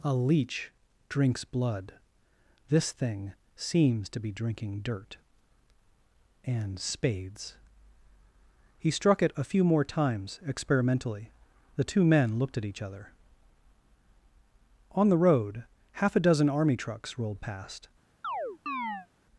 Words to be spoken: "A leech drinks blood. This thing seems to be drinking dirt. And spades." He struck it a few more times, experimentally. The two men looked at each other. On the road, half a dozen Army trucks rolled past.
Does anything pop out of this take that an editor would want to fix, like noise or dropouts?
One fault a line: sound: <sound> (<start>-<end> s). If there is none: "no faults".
sound: chirp (18.2-19.1 s)